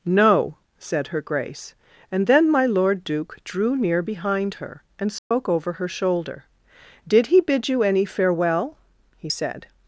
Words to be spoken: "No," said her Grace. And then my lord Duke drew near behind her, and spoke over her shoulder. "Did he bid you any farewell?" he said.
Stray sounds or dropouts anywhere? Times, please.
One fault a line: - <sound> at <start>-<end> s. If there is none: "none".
- dropout at 5.2-5.3 s